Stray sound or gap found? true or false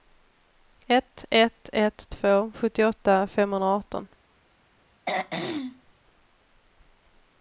true